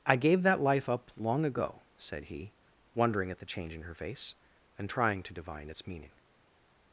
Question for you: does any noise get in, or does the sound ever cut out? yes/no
no